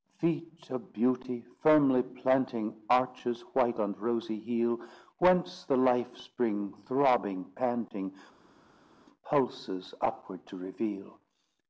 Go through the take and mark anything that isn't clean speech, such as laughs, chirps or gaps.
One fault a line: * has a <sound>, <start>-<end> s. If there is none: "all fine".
all fine